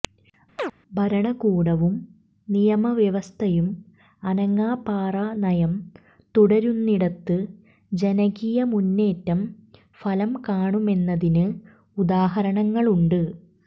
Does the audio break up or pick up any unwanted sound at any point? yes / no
yes